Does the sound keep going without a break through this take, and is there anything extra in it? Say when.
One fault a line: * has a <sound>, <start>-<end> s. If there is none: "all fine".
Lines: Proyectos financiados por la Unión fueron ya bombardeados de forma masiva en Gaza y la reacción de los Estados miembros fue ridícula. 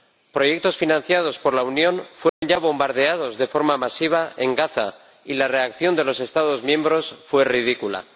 * has a dropout, 2.3-2.4 s